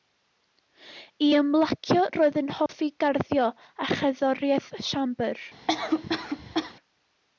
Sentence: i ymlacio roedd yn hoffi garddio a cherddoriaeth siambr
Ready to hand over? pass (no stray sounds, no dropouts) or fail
fail